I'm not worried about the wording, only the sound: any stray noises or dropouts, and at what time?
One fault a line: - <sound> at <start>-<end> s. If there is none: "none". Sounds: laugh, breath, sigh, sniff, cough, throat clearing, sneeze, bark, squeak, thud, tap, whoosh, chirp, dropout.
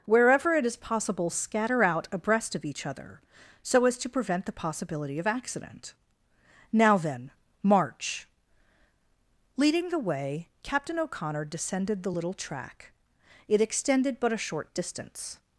none